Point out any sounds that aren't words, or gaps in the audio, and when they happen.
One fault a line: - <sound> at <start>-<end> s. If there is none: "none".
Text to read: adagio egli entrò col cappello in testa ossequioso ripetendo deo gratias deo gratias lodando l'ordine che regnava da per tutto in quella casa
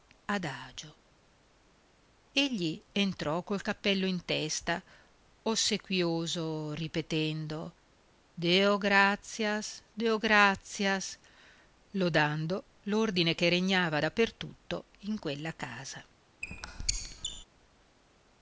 - squeak at 16.4-17.4 s